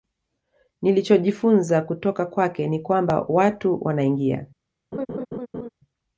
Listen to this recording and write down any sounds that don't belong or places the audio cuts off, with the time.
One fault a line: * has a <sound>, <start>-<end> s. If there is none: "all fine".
* has a laugh, 4.9-5.7 s